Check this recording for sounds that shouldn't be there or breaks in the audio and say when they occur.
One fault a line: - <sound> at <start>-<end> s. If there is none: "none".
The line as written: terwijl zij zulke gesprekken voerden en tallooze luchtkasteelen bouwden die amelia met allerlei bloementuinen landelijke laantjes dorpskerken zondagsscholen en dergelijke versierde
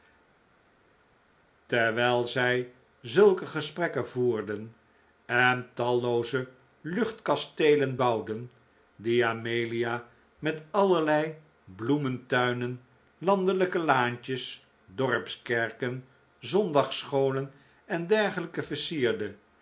none